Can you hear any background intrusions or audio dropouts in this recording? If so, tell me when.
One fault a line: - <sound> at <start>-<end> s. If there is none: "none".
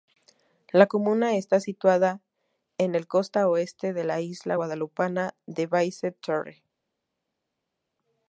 none